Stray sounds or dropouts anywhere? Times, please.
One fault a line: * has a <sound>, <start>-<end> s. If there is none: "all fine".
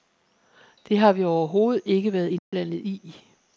* has a dropout, 2.4-2.5 s